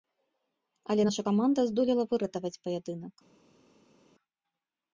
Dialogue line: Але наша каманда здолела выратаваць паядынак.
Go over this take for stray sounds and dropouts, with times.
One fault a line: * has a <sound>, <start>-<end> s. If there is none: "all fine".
all fine